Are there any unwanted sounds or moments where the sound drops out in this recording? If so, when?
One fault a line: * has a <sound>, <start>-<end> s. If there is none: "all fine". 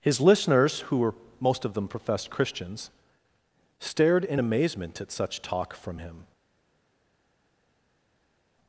all fine